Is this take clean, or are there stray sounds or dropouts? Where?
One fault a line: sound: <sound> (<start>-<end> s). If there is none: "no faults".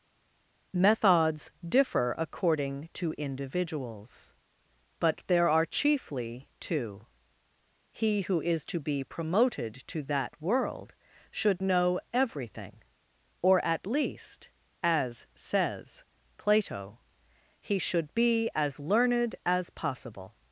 no faults